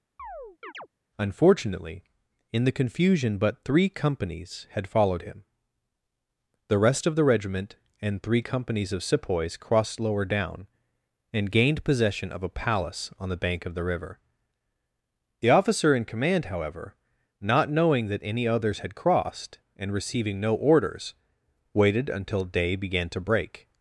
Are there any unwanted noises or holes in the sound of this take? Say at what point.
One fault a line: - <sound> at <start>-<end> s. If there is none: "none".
- chirp at 0.2-0.9 s